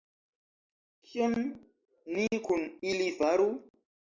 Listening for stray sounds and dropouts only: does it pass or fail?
pass